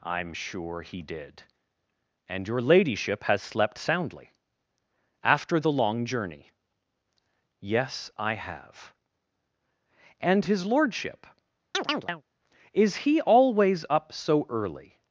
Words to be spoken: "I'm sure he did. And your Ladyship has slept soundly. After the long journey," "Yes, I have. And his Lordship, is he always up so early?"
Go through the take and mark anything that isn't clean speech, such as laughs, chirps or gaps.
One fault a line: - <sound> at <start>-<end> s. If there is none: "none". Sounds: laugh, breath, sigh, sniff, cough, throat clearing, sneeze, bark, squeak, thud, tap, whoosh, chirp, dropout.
- chirp at 11.7-12.2 s